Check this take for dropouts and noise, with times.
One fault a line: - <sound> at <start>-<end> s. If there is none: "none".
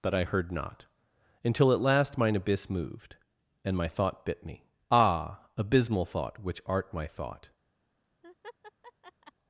- laugh at 8.2-9.3 s